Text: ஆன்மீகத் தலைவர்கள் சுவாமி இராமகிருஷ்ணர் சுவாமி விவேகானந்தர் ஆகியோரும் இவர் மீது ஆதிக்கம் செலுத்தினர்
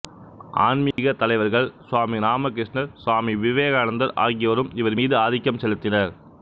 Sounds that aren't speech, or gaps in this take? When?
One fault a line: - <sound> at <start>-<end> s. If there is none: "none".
- dropout at 0.9-1.0 s